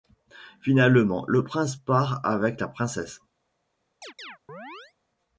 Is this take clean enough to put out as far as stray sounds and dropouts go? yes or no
no